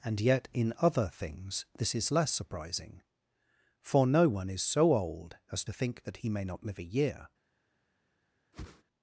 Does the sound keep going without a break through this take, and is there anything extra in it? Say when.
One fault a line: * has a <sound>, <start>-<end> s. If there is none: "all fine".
* has a whoosh, 8.5-8.8 s